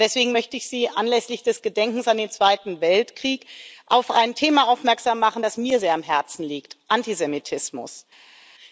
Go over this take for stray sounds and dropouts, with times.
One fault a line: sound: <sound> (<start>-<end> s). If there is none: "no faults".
no faults